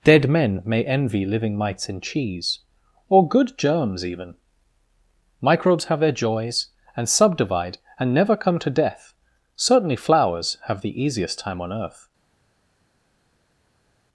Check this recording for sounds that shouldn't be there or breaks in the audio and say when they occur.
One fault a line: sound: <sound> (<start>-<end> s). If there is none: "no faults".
no faults